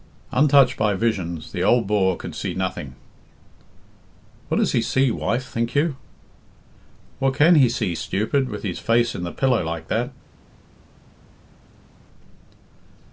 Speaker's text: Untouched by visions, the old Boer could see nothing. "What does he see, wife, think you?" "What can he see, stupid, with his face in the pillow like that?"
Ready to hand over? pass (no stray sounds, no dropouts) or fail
pass